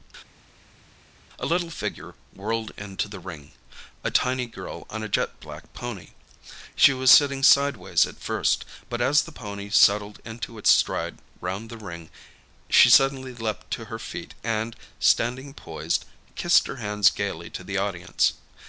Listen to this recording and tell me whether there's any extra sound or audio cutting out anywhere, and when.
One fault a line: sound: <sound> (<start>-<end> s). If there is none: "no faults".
no faults